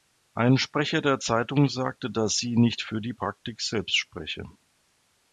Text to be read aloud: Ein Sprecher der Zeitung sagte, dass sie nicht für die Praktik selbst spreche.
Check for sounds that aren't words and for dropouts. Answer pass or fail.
pass